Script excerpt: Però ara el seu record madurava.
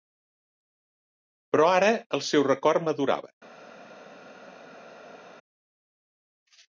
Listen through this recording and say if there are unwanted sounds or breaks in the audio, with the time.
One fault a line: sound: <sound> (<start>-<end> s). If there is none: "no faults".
no faults